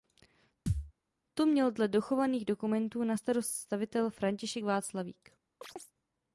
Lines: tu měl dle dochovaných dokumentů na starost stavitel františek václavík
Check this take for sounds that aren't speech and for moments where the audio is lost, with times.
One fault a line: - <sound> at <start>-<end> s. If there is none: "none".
- thud at 0.7-0.9 s
- chirp at 5.6-5.9 s